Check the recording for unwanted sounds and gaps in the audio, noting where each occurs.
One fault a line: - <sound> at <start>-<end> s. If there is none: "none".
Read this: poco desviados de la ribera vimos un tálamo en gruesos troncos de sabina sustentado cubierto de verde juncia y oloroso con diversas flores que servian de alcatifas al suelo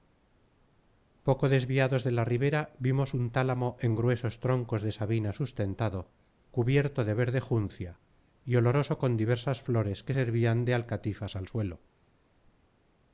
none